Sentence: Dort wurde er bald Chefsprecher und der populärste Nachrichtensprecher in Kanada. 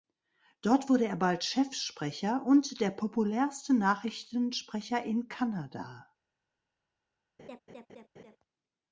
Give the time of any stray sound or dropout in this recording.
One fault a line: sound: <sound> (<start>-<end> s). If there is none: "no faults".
sound: laugh (7.4-8.4 s)